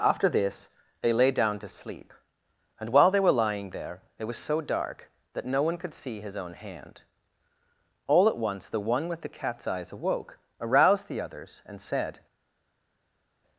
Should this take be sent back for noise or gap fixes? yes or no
no